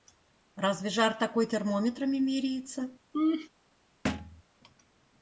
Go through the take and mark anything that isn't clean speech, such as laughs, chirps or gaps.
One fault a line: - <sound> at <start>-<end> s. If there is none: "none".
- laugh at 3.1-3.5 s
- thud at 4.0-4.4 s